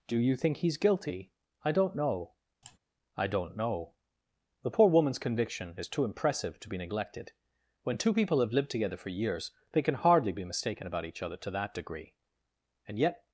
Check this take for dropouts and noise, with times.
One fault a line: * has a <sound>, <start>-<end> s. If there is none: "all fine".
* has a sigh, 2.6-2.8 s